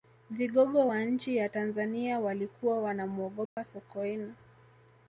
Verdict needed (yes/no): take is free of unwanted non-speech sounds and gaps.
no